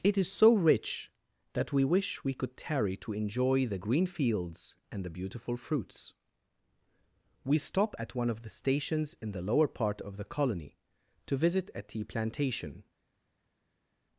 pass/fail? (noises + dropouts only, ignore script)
pass